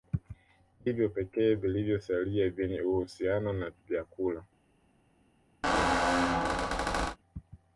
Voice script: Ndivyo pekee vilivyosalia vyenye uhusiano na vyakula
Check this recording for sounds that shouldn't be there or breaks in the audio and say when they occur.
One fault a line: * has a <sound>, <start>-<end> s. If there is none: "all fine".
* has a squeak, 5.6-7.2 s